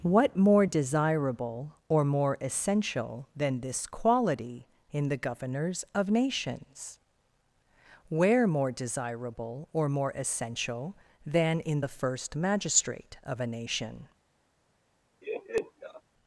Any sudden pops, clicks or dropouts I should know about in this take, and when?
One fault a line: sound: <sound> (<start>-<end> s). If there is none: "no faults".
sound: laugh (15.2-16.0 s)